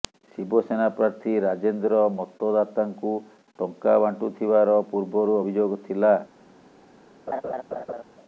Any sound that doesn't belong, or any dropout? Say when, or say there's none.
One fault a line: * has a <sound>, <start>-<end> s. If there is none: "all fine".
* has a laugh, 7.3-8.0 s